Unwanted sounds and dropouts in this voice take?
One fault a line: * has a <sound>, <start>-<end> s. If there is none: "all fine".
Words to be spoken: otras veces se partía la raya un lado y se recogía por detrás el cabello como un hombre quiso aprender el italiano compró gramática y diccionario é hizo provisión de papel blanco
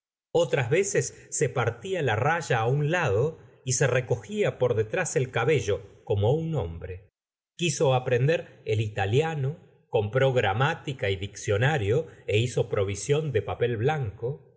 all fine